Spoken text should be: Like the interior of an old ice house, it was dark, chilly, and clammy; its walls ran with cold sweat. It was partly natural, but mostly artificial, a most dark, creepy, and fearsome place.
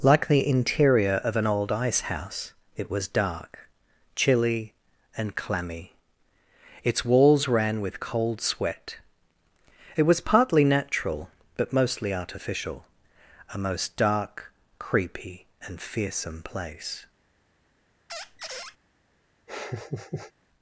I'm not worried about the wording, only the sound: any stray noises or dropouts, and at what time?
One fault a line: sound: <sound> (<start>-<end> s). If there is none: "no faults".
sound: squeak (18.1-18.8 s)
sound: laugh (19.5-20.3 s)